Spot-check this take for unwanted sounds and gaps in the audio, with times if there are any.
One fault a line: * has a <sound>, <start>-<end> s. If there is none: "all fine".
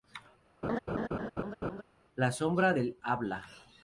* has a laugh, 0.6-1.8 s